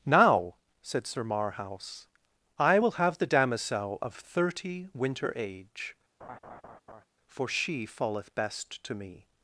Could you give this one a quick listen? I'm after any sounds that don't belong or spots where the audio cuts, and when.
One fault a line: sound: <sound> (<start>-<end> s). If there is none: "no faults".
sound: laugh (6.2-7.0 s)